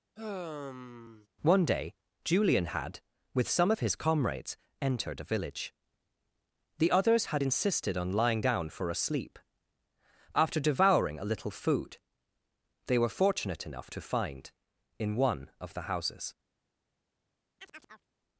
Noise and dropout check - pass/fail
fail